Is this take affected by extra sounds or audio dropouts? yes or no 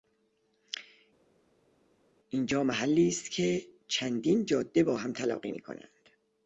no